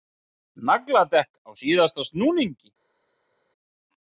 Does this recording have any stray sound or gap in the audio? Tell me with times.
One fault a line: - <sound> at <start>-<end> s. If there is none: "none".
none